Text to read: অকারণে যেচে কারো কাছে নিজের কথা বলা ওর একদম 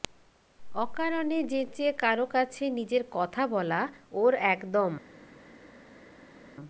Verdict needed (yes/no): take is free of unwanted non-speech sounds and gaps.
yes